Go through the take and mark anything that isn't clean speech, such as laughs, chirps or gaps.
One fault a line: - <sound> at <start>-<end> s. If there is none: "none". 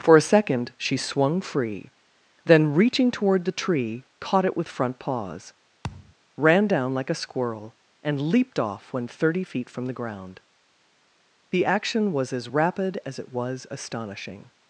- thud at 5.8-6.1 s